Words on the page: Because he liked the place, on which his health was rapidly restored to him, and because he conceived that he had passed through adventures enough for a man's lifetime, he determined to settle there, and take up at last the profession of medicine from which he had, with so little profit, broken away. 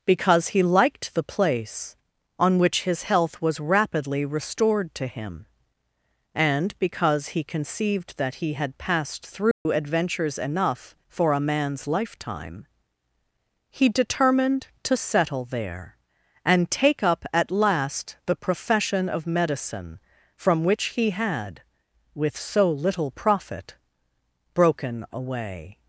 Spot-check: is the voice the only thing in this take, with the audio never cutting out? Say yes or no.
no